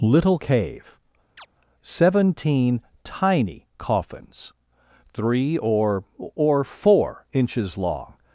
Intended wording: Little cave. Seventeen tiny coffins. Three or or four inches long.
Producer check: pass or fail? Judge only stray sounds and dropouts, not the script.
fail